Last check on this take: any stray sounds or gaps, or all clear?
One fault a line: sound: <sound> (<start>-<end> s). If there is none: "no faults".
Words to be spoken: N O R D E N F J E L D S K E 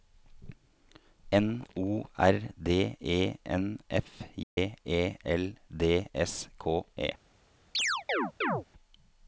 sound: dropout (4.4-4.6 s)
sound: chirp (7.7-8.6 s)